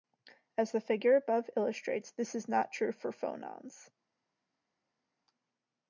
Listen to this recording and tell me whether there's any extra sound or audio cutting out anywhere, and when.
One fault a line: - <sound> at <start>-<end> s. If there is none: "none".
none